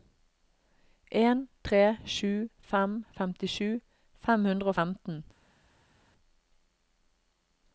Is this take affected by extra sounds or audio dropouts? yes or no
no